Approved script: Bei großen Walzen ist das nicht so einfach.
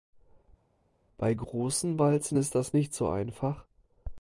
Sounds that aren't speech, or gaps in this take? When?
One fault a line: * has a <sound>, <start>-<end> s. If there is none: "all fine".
all fine